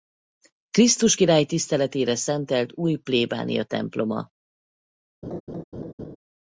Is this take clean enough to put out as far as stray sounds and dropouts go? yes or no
no